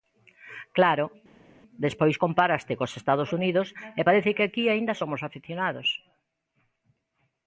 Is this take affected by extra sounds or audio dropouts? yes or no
no